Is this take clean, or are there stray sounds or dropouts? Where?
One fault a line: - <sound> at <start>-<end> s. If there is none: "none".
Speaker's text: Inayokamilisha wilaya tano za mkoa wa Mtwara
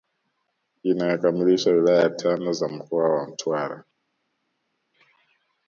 none